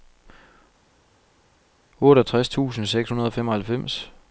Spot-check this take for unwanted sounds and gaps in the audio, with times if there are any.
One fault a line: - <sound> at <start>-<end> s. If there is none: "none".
none